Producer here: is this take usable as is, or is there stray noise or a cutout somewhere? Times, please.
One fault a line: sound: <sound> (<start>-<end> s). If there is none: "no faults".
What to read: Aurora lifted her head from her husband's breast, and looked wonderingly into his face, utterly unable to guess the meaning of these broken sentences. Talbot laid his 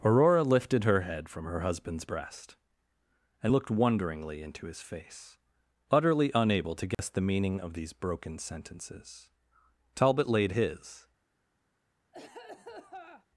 sound: dropout (6.9-7.0 s)
sound: cough (12.1-13.3 s)